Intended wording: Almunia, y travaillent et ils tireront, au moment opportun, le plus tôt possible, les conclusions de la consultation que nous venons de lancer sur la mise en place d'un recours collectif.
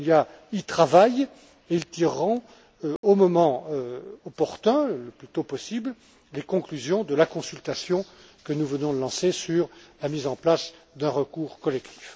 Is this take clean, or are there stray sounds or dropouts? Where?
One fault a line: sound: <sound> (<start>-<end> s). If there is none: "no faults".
sound: dropout (3.0-3.0 s)